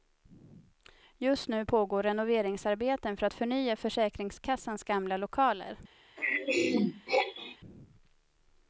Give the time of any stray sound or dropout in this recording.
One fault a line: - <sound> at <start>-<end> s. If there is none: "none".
- throat clearing at 6.2-7.6 s